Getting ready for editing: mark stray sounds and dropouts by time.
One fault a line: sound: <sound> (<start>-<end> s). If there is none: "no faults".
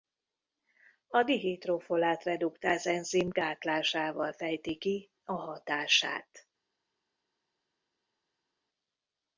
no faults